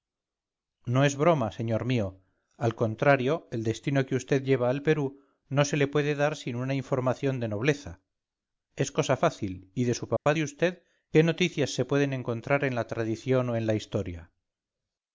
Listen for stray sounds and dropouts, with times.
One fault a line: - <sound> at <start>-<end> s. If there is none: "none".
- dropout at 10.2-10.3 s